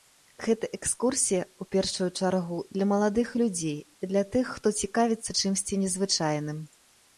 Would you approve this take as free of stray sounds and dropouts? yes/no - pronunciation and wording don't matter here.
yes